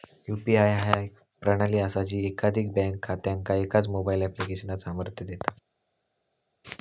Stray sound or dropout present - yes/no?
no